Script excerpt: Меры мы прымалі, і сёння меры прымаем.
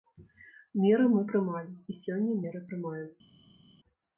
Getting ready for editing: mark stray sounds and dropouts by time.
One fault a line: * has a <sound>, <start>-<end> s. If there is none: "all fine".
all fine